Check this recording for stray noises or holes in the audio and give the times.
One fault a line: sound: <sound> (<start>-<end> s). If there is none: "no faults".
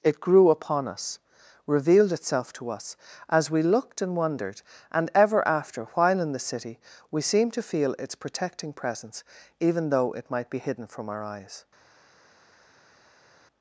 no faults